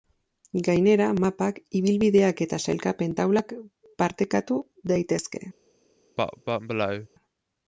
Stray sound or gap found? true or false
true